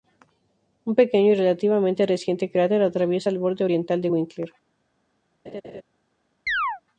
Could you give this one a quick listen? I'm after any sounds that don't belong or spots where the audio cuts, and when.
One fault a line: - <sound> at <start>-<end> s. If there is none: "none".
- laugh at 5.5-5.8 s
- chirp at 6.5-6.8 s